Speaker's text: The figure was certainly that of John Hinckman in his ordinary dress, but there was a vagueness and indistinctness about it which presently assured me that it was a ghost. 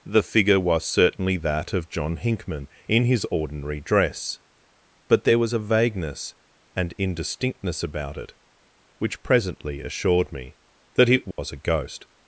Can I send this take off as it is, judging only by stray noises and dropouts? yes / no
no